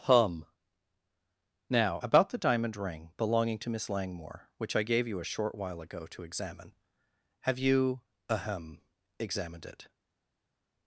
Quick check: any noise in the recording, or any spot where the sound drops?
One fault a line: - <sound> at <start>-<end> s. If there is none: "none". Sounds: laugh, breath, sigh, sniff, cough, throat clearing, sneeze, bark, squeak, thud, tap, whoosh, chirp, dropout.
none